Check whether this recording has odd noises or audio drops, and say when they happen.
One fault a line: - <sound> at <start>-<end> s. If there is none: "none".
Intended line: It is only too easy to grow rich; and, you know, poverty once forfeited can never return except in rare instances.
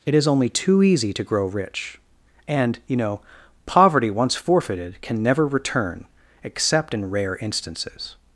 none